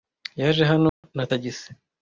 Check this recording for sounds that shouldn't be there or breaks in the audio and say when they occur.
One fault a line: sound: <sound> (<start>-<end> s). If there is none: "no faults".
sound: dropout (0.9-1.0 s)